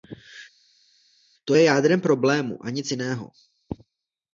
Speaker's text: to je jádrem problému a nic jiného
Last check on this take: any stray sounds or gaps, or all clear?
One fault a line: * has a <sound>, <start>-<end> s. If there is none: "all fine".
all fine